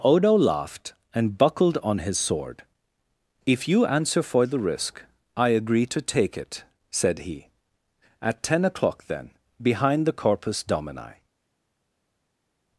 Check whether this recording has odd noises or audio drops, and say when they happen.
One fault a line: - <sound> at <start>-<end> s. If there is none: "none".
none